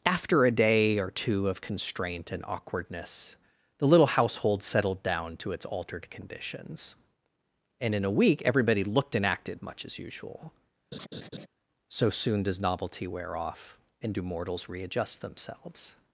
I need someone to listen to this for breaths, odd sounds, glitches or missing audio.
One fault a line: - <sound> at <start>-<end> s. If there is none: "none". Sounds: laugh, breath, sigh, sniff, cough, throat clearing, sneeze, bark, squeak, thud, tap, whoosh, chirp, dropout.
- laugh at 10.9-11.5 s